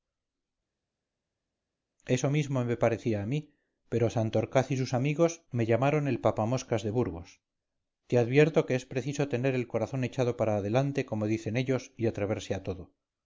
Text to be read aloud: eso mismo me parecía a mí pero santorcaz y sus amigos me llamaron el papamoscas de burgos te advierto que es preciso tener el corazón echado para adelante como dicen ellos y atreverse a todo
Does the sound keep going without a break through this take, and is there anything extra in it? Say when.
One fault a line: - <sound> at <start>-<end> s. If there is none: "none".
none